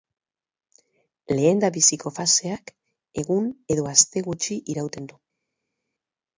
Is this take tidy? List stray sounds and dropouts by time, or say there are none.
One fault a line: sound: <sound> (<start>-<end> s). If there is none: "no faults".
no faults